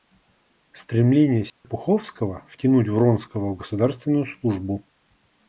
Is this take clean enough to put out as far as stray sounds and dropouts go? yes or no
no